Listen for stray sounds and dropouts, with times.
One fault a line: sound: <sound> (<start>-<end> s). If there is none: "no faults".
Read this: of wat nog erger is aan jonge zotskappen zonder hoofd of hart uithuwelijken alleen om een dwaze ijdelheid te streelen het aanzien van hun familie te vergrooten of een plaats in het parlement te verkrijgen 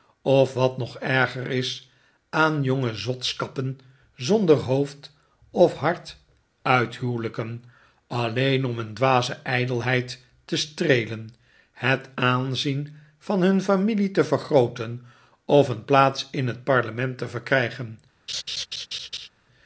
sound: laugh (18.3-19.3 s)